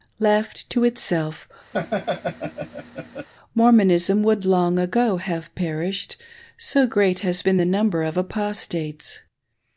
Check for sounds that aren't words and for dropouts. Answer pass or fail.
fail